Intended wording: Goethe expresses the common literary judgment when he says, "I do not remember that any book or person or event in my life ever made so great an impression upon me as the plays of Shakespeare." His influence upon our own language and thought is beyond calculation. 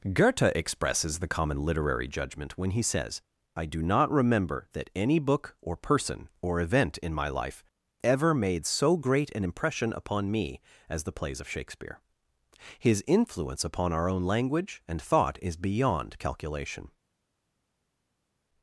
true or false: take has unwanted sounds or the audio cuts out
false